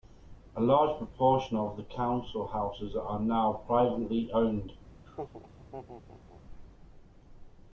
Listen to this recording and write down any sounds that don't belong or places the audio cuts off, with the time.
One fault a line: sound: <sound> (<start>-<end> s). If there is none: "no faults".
sound: laugh (5.0-6.4 s)